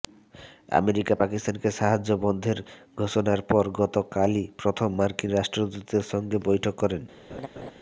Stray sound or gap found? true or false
true